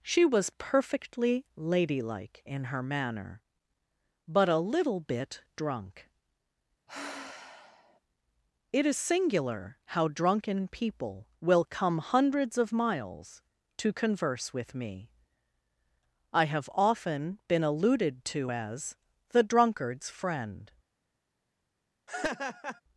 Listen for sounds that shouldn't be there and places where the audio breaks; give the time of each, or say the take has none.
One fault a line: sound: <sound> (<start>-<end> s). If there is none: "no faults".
sound: sigh (6.9-8.0 s)
sound: laugh (22.1-22.8 s)